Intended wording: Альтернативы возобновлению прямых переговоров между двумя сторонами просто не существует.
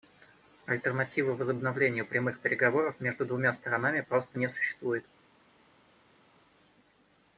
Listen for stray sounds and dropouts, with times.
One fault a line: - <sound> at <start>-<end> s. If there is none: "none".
none